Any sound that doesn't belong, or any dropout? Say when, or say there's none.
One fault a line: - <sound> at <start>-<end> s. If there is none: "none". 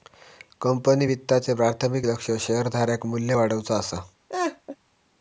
- laugh at 4.3-4.8 s